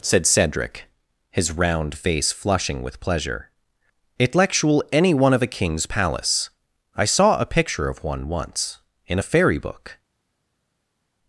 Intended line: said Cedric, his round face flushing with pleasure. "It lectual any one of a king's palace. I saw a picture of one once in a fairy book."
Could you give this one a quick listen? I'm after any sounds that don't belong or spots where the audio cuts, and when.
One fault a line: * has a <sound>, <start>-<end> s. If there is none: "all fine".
all fine